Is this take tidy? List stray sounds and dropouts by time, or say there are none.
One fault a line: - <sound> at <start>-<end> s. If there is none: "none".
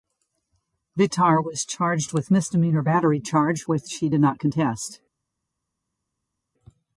none